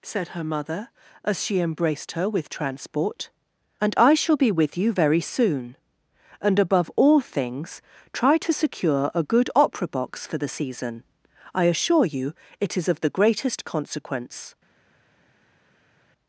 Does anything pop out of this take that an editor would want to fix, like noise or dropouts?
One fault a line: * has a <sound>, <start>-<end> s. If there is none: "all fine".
all fine